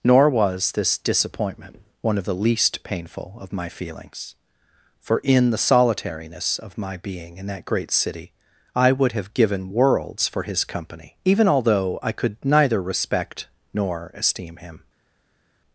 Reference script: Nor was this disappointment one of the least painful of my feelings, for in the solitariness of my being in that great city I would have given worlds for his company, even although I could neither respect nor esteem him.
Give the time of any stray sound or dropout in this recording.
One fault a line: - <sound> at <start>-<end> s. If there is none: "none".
none